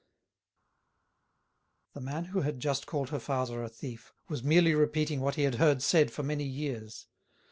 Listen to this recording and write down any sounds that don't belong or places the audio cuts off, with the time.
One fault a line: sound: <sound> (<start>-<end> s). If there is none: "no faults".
no faults